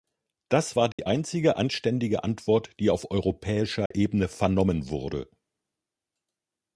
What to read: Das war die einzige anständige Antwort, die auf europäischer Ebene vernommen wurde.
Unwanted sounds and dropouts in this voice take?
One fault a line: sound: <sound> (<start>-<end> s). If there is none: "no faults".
sound: dropout (0.9-1.0 s)
sound: dropout (3.9-3.9 s)